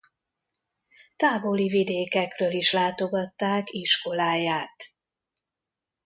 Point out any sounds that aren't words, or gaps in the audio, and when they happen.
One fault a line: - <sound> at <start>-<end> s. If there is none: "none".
none